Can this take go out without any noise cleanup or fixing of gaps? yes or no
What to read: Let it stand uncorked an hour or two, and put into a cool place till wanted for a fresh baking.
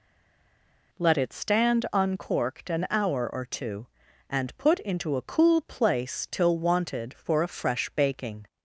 yes